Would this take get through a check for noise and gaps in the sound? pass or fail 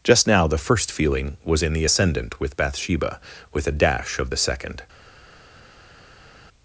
pass